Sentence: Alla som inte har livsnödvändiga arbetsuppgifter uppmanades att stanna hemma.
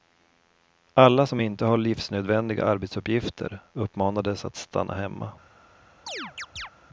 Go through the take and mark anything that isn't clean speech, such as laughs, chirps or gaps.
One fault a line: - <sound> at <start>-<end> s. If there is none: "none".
- chirp at 6.1-6.7 s